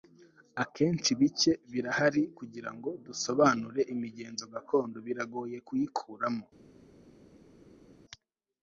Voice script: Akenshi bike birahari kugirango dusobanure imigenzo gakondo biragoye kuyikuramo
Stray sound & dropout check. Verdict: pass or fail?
pass